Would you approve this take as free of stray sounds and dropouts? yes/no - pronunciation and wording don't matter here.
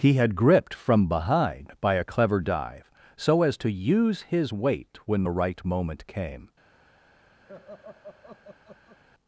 no